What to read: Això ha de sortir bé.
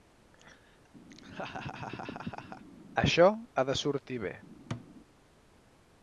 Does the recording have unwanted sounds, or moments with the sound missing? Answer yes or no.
yes